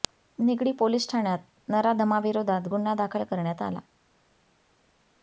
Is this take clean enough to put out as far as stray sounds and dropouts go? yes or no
yes